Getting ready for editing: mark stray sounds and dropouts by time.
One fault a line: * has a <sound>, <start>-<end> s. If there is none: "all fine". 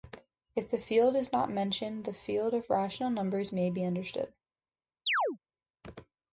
* has a chirp, 5.1-5.4 s